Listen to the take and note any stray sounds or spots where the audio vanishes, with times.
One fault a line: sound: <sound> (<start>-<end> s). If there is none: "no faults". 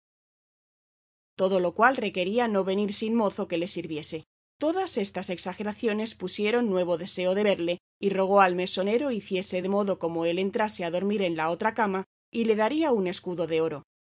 no faults